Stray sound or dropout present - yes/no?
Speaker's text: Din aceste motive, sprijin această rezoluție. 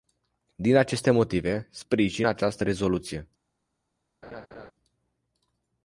yes